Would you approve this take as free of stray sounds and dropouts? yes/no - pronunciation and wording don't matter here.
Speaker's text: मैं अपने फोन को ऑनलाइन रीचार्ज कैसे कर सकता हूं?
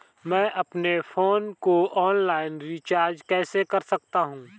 yes